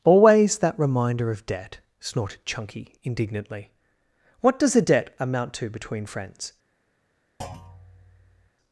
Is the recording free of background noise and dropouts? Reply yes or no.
no